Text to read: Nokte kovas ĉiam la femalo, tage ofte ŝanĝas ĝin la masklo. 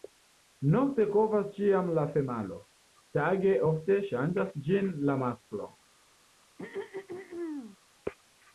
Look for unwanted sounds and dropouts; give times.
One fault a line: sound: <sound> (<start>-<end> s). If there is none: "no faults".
sound: throat clearing (6.6-7.8 s)